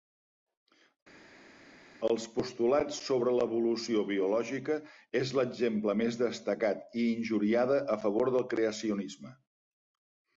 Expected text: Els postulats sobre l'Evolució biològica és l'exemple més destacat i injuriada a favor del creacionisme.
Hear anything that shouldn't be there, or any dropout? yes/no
no